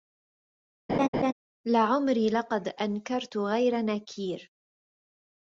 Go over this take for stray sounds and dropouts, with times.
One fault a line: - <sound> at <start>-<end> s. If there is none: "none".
- laugh at 0.9-1.3 s